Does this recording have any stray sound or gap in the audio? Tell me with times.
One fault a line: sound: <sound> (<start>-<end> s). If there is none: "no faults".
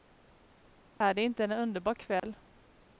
sound: dropout (1.0-1.0 s)
sound: dropout (2.2-2.2 s)